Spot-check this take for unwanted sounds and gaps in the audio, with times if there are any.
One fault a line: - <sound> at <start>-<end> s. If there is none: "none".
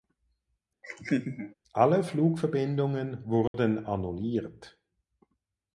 - laugh at 0.8-1.5 s
- dropout at 3.5-3.5 s